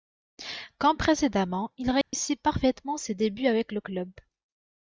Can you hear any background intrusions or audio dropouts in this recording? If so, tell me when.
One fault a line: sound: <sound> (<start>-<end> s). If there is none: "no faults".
sound: dropout (2.0-2.1 s)